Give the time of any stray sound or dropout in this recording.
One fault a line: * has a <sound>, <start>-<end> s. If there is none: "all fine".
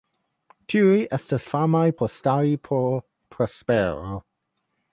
all fine